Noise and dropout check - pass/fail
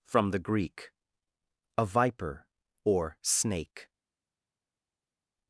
pass